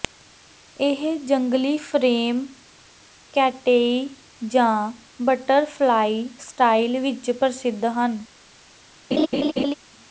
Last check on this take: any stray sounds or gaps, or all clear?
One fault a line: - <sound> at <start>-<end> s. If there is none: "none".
- laugh at 9.1-9.7 s